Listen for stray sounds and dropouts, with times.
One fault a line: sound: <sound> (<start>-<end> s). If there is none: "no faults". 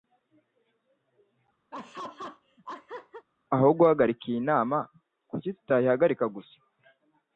sound: laugh (1.7-3.3 s)